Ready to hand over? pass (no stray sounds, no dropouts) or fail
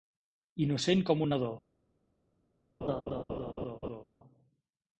fail